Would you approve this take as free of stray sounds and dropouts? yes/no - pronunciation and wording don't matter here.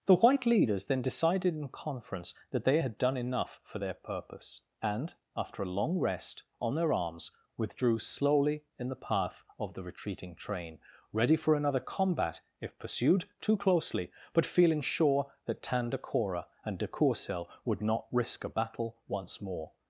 yes